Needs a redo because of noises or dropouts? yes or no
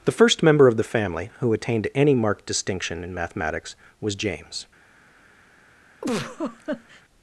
yes